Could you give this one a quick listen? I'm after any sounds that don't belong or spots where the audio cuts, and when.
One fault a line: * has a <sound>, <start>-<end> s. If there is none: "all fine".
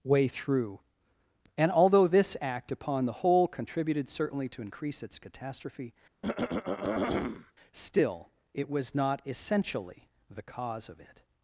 * has a throat clearing, 6.2-7.5 s